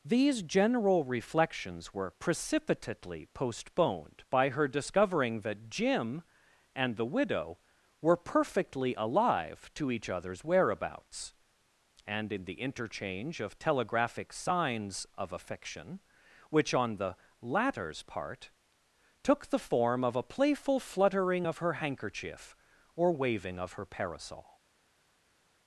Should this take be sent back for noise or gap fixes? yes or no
no